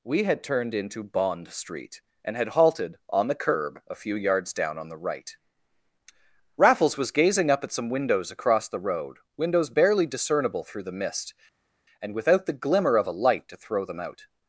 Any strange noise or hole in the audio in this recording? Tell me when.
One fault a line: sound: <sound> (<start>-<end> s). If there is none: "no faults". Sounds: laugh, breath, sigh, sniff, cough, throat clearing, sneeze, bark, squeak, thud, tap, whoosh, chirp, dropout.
no faults